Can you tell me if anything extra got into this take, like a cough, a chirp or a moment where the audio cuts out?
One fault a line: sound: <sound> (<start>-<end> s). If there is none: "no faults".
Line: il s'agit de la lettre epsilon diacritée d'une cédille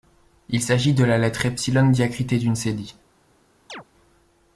sound: chirp (3.7-3.8 s)